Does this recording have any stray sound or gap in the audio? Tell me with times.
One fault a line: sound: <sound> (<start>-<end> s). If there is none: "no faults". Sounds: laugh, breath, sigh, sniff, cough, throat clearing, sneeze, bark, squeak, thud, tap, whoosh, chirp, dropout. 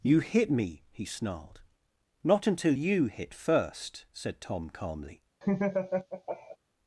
sound: laugh (5.4-6.6 s)